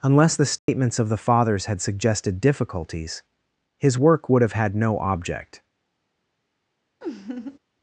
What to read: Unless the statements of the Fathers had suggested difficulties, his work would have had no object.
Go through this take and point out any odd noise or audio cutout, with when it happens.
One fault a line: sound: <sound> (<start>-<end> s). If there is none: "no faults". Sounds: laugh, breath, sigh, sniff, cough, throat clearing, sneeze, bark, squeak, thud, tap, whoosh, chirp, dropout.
sound: dropout (0.6-0.7 s)
sound: laugh (7.0-7.6 s)